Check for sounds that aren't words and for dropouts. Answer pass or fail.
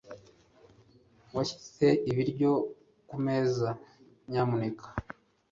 pass